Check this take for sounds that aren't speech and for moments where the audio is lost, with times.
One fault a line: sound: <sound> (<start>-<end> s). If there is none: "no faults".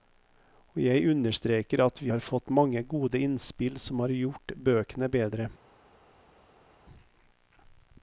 no faults